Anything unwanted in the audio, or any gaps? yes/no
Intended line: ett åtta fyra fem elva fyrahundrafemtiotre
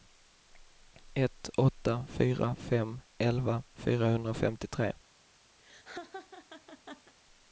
yes